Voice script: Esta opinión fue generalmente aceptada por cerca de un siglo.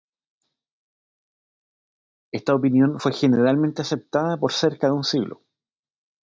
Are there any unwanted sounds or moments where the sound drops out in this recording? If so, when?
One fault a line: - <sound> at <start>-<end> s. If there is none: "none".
none